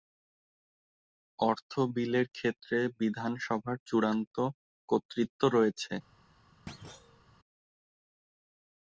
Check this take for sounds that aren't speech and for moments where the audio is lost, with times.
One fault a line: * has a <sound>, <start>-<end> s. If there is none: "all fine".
* has a thud, 6.7-7.2 s